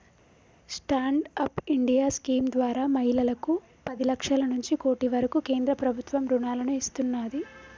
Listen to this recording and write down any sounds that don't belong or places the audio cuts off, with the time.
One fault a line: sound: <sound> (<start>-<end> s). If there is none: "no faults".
no faults